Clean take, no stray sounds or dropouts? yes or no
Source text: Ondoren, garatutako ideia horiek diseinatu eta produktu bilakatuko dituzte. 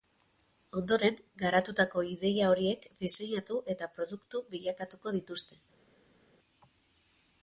yes